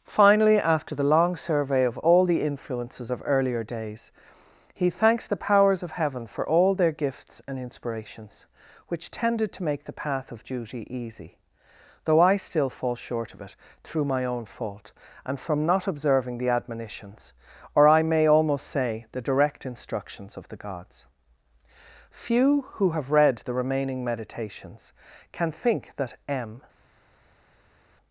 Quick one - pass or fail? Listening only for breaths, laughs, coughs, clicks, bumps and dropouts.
pass